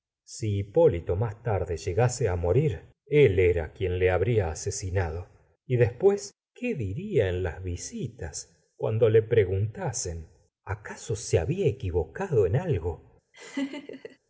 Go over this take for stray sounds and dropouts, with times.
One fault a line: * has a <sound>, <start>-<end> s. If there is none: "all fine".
* has a laugh, 13.3-14.2 s